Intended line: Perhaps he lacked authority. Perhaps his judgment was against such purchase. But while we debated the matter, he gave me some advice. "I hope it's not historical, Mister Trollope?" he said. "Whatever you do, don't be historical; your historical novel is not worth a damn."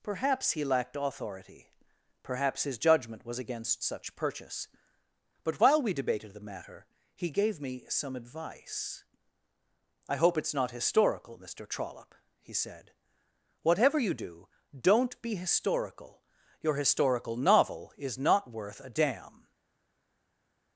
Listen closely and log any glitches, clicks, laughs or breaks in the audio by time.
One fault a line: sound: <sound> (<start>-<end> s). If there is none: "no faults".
no faults